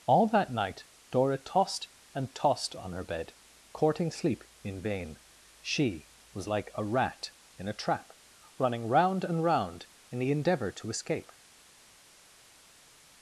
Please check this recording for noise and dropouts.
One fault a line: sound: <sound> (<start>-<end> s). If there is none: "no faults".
no faults